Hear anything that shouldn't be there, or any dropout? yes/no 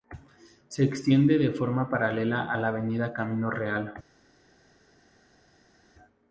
no